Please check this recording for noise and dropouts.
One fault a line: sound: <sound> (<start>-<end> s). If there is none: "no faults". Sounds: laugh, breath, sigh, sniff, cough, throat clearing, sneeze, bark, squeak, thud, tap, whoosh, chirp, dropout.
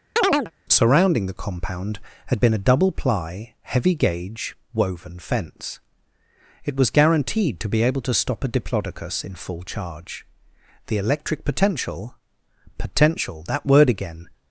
sound: chirp (0.2-0.5 s)